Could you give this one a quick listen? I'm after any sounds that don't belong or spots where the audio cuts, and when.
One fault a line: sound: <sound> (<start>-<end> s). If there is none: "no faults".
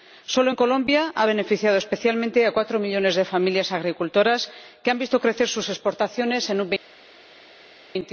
no faults